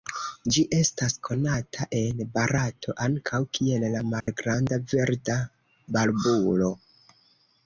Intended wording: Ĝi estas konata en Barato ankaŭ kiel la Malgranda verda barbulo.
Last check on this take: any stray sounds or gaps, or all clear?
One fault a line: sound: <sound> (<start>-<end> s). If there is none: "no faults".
sound: dropout (4.2-4.3 s)